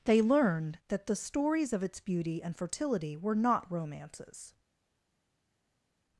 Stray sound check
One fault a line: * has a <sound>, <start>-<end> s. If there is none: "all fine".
all fine